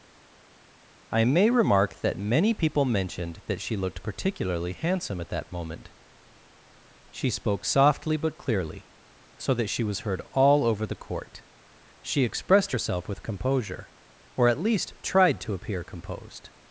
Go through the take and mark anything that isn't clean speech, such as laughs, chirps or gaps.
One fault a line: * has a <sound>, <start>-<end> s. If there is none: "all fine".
all fine